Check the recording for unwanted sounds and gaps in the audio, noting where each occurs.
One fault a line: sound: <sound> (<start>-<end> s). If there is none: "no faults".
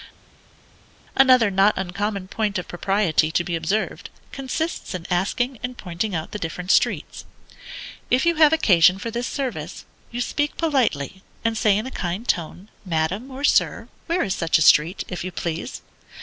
no faults